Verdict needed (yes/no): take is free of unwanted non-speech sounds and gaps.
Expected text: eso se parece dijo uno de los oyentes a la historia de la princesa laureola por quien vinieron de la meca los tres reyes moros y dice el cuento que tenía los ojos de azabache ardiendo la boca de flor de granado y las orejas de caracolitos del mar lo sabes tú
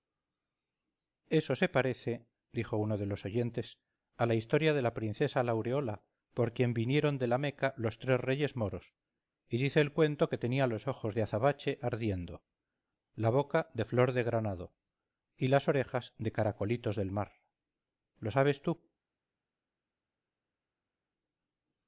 yes